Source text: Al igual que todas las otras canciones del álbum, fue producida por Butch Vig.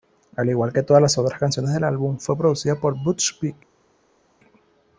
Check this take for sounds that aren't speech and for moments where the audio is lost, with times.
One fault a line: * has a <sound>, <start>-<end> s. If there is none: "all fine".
all fine